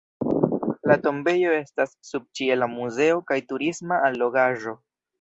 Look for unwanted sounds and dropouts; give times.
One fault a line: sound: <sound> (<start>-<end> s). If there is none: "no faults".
no faults